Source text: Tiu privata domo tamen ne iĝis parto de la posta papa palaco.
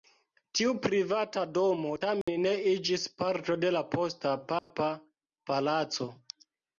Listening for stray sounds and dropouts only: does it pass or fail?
fail